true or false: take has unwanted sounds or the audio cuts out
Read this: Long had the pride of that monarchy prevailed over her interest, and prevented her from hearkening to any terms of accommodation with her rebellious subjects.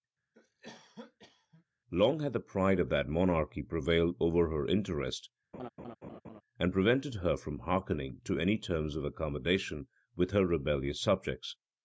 true